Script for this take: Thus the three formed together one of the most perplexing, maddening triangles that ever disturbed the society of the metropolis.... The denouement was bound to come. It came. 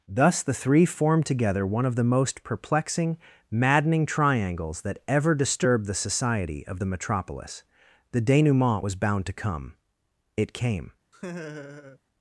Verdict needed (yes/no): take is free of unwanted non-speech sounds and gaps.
no